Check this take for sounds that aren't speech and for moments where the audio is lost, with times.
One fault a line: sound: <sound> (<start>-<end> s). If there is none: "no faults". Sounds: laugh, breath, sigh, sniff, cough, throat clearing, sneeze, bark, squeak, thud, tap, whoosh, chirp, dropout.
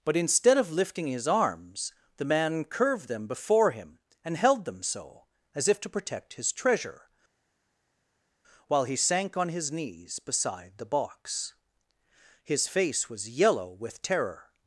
no faults